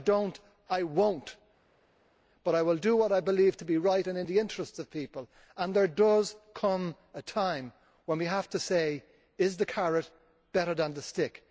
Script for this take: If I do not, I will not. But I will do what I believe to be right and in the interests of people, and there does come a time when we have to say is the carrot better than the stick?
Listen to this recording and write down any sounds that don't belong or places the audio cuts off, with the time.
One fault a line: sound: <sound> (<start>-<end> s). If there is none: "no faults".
no faults